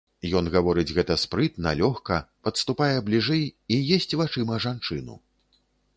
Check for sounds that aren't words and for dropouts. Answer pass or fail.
pass